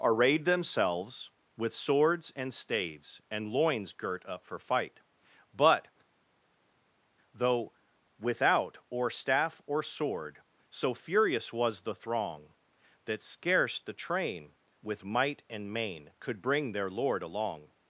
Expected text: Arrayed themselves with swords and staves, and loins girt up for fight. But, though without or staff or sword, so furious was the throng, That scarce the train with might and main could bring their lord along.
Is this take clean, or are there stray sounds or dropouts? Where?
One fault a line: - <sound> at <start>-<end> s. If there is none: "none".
none